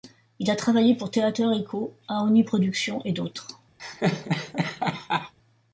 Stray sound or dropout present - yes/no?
yes